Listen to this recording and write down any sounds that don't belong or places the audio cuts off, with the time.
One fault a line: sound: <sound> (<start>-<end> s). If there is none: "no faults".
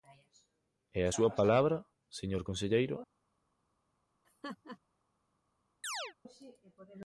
sound: laugh (4.2-4.8 s)
sound: chirp (5.8-6.1 s)